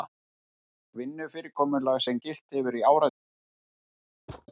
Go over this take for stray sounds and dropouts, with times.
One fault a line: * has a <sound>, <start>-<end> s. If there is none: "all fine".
* has a thud, 4.3-4.5 s